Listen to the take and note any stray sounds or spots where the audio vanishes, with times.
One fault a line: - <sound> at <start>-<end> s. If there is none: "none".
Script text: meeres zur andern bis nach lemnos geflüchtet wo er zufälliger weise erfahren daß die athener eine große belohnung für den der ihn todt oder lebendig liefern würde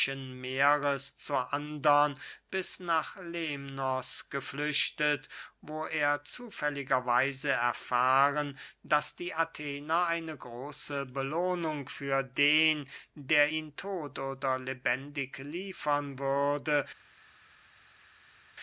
none